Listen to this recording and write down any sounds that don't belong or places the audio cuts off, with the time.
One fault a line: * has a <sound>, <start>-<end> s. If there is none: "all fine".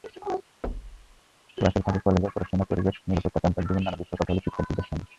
* has a thud, 0.6-1.2 s